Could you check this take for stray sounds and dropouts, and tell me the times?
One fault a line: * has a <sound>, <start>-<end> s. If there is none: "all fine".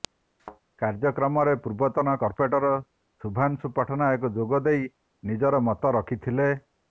* has a thud, 0.4-0.6 s